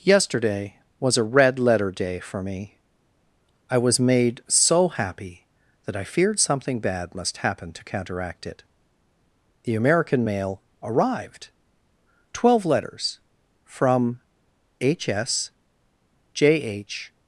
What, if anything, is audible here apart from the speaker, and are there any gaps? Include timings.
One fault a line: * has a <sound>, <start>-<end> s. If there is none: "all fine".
all fine